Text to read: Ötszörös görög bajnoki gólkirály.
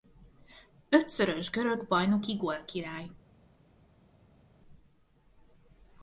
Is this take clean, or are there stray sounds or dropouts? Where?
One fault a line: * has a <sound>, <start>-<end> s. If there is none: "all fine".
all fine